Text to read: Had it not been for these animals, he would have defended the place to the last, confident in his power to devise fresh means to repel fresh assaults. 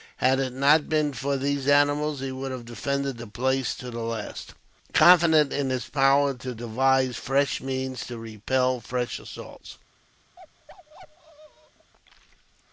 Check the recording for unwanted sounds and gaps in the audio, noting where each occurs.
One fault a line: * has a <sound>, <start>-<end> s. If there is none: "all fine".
* has a bark, 10.4-11.9 s